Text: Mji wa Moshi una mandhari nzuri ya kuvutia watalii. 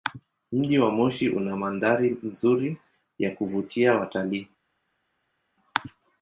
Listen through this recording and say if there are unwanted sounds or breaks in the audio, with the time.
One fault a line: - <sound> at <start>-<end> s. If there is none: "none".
none